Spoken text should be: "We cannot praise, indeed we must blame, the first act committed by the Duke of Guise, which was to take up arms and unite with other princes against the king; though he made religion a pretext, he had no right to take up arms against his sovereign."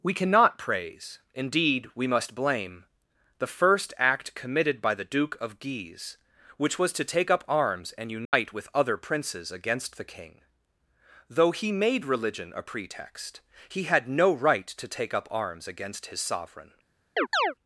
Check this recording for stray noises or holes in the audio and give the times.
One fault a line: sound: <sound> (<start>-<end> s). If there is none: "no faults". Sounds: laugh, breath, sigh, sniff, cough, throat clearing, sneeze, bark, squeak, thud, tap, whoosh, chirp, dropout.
sound: dropout (8.2-8.3 s)
sound: chirp (17.2-17.5 s)